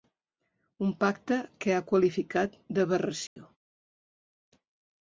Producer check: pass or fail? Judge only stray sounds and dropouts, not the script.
fail